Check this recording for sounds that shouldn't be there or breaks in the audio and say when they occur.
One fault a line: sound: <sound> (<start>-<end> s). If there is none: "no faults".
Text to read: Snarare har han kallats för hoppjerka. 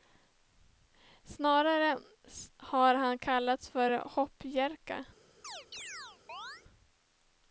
sound: chirp (5.4-6.6 s)